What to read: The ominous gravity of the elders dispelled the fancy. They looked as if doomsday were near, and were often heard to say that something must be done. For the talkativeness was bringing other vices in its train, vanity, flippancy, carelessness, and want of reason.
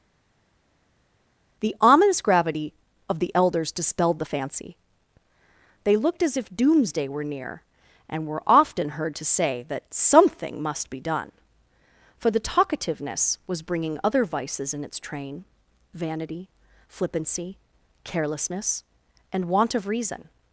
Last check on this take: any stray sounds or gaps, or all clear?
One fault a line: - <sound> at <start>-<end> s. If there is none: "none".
none